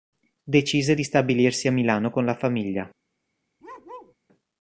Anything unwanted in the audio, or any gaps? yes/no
yes